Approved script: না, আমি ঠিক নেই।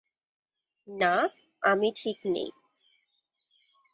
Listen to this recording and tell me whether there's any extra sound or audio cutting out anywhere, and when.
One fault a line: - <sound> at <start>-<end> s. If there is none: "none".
none